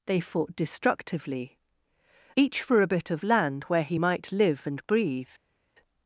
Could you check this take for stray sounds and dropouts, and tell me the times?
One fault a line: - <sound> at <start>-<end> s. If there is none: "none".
none